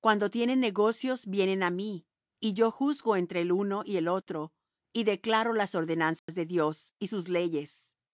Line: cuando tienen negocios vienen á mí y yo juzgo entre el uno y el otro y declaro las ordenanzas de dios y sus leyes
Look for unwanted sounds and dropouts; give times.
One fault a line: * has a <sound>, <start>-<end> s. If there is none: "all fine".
* has a dropout, 6.2-6.3 s